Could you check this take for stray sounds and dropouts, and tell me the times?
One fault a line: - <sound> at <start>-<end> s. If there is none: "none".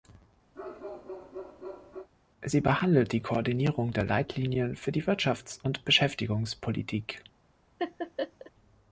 - bark at 0.5-2.1 s
- laugh at 7.8-8.5 s